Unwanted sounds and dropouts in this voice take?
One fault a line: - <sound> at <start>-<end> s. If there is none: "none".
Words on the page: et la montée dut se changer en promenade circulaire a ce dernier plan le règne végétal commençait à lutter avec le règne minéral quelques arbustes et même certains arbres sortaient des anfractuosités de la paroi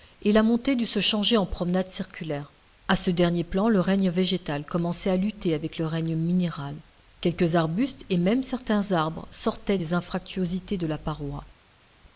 none